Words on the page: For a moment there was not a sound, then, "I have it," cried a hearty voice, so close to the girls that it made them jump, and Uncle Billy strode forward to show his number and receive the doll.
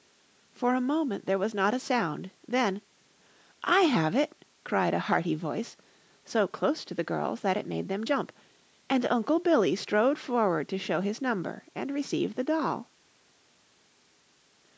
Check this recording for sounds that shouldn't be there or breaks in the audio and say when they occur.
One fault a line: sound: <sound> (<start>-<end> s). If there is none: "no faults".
no faults